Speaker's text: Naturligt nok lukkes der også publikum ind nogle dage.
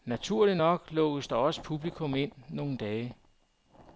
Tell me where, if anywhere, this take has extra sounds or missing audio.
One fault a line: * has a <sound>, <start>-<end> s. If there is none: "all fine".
all fine